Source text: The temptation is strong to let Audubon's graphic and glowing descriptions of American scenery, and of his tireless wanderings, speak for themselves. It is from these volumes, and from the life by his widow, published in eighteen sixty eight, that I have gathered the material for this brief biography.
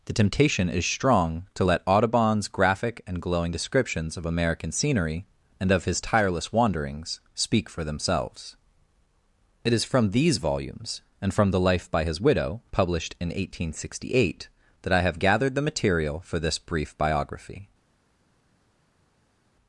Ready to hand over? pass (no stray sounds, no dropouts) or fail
pass